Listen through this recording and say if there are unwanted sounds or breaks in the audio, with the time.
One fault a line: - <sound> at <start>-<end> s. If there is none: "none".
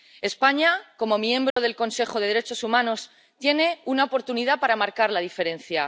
- dropout at 1.5-1.6 s